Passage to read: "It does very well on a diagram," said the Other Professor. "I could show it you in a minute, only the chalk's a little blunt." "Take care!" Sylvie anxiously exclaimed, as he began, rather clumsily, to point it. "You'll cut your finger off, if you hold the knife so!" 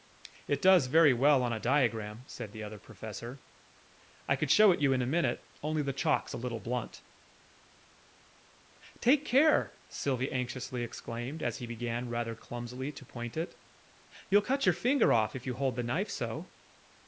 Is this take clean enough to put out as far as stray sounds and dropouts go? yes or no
yes